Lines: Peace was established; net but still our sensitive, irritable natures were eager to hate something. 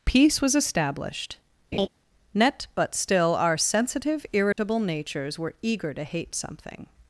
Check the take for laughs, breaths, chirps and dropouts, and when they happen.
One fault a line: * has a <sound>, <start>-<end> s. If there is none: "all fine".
* has a laugh, 1.7-1.9 s
* has a dropout, 4.5-4.6 s